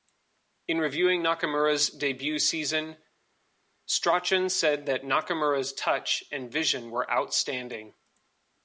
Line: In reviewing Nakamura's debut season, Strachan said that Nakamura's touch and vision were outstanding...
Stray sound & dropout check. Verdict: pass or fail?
pass